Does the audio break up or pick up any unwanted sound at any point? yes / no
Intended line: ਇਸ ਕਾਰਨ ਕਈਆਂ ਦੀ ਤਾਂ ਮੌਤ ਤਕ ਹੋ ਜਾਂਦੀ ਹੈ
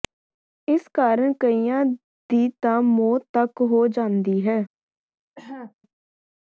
yes